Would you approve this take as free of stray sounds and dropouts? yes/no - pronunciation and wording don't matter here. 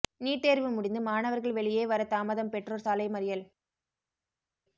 yes